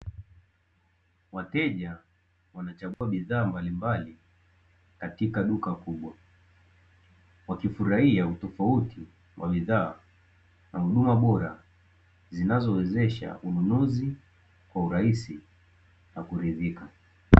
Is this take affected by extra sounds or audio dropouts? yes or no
yes